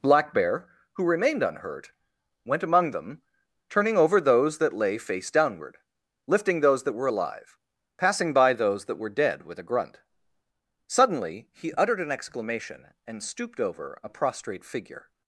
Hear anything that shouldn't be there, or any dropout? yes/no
no